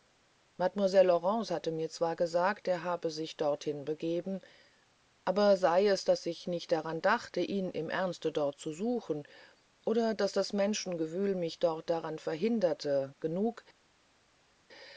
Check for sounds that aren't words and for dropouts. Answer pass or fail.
pass